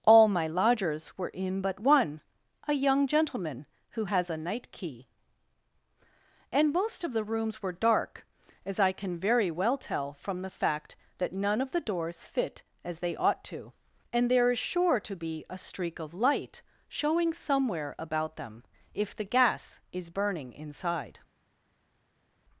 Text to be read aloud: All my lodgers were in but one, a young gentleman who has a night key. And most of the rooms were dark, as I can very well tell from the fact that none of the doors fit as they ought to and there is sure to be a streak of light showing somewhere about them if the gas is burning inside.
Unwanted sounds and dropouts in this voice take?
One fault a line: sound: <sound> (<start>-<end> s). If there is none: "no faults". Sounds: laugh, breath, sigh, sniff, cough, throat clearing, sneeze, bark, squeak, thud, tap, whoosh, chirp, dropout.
no faults